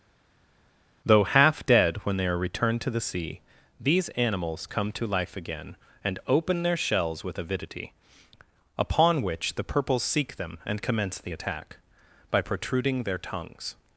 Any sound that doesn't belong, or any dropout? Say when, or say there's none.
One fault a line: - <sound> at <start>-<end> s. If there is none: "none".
none